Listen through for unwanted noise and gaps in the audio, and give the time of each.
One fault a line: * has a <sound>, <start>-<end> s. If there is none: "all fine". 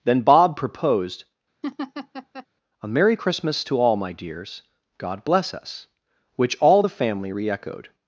* has a laugh, 1.6-2.5 s